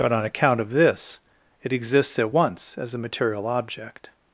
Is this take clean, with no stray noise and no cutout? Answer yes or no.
yes